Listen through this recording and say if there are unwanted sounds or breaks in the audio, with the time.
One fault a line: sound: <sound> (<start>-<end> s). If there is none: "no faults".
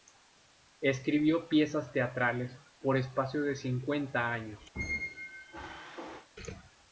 sound: squeak (4.7-6.3 s)